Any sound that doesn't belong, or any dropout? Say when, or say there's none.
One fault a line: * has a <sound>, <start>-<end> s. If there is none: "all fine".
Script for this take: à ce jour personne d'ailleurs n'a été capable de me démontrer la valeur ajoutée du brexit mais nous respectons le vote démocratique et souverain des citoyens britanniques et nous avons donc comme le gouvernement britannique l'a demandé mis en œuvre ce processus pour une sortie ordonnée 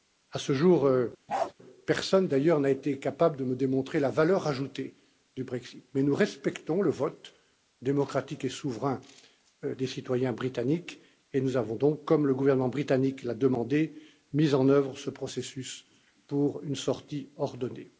* has a bark, 1.3-1.5 s